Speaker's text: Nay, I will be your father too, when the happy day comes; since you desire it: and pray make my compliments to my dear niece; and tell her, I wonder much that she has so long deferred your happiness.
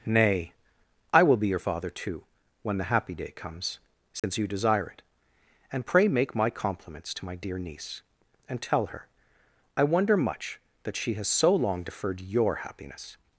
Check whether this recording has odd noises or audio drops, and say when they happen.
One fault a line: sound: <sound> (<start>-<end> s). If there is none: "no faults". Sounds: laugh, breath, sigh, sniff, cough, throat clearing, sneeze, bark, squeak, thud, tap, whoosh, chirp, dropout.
sound: dropout (4.2-4.2 s)